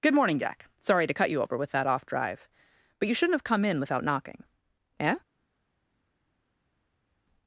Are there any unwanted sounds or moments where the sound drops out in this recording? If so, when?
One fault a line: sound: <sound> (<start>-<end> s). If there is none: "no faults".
no faults